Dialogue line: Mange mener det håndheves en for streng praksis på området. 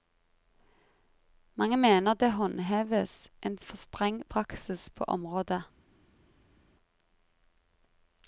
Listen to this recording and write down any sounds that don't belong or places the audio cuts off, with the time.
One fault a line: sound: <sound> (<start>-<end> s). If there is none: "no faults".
no faults